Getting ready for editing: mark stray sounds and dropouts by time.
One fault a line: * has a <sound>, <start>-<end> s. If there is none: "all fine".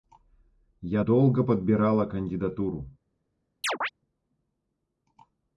* has a chirp, 3.6-3.9 s